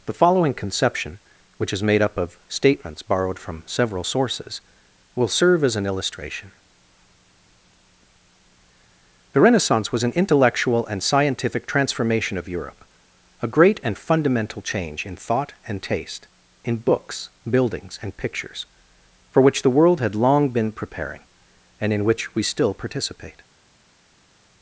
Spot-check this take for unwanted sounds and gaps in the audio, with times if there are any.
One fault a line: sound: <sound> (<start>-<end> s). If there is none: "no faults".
no faults